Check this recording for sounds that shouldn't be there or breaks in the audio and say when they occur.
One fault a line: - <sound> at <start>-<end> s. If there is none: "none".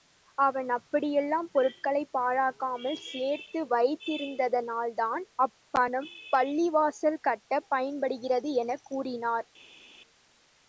none